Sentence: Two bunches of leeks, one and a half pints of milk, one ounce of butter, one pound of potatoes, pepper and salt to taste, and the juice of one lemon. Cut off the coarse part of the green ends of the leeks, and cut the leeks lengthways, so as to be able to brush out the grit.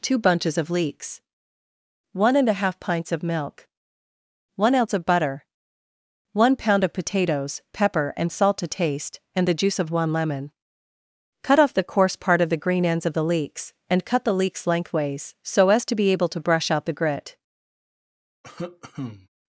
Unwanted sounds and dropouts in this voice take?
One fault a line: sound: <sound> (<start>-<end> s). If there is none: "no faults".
sound: cough (18.4-19.3 s)